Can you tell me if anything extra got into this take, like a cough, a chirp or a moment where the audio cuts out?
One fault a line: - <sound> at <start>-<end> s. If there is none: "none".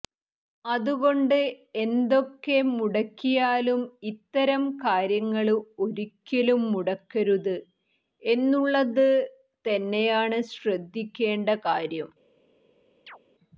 - chirp at 13.1-13.2 s